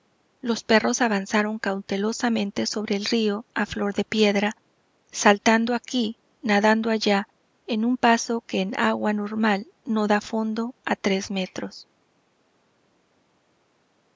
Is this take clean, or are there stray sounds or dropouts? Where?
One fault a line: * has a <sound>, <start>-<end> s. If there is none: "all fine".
all fine